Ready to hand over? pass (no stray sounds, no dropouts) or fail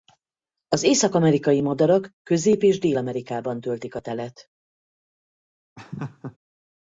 fail